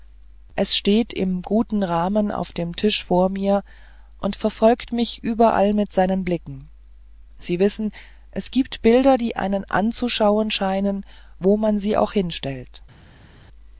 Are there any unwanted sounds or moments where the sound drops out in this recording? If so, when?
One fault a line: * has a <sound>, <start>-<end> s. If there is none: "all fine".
all fine